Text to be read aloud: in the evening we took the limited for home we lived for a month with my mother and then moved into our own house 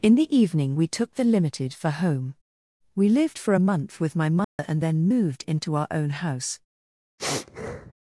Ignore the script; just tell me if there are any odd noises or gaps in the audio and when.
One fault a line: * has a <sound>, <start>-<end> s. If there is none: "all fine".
* has a dropout, 4.4-4.6 s
* has a sniff, 7.2-7.9 s